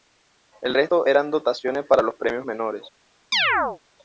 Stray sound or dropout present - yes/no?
yes